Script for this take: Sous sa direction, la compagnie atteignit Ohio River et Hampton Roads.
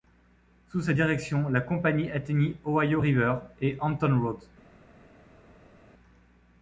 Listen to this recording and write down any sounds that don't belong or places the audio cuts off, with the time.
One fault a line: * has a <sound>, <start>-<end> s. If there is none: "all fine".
all fine